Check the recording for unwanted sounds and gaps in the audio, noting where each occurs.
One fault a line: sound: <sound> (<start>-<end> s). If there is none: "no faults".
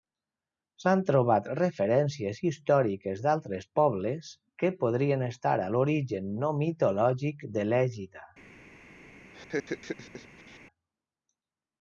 sound: laugh (9.3-10.6 s)